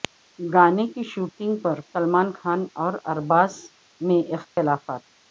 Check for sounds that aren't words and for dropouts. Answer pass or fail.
fail